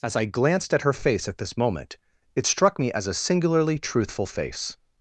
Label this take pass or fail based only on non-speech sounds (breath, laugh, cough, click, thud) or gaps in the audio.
pass